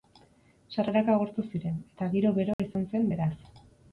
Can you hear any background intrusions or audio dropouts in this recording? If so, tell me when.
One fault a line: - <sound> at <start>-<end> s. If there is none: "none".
- dropout at 2.5-2.6 s